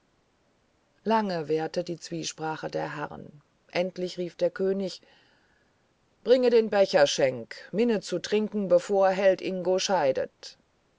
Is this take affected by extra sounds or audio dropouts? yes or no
no